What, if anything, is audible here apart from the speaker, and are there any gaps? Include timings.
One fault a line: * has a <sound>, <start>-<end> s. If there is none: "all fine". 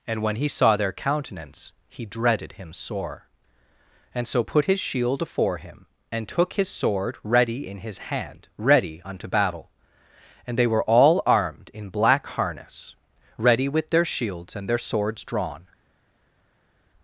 all fine